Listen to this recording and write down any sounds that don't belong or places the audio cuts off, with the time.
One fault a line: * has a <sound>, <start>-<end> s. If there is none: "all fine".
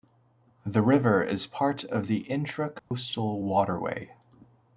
* has a dropout, 2.8-2.9 s